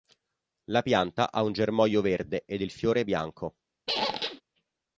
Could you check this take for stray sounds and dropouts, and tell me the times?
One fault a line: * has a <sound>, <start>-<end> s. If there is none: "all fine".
* has a squeak, 3.9-4.4 s